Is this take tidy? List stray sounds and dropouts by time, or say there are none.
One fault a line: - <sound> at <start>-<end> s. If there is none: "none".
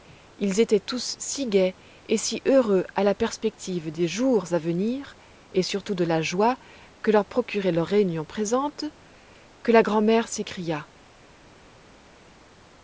none